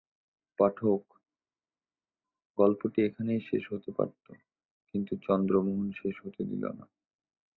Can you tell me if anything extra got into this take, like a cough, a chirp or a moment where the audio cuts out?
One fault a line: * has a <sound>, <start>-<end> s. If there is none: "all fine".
all fine